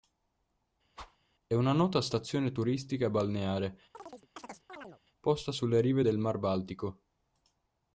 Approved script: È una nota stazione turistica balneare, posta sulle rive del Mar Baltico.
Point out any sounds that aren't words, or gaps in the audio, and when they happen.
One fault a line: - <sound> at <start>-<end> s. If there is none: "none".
- whoosh at 0.9-1.2 s
- chirp at 3.9-5.0 s